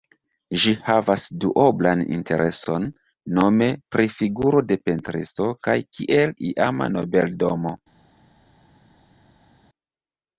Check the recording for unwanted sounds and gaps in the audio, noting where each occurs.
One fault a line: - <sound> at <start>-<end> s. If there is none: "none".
none